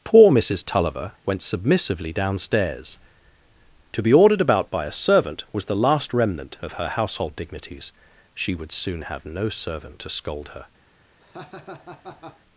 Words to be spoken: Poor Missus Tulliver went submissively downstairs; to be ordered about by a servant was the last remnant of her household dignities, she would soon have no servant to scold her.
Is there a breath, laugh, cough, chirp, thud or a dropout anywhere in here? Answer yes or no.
yes